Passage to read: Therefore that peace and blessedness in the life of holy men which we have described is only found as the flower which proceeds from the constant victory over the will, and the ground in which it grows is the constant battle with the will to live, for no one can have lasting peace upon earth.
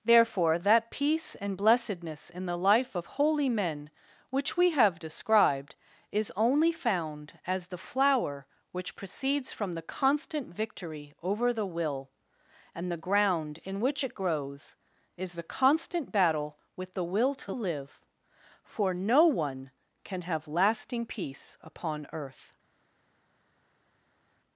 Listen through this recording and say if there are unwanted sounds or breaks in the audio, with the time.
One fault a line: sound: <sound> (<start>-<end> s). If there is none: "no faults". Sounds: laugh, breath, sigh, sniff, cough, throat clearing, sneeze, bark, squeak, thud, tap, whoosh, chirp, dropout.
no faults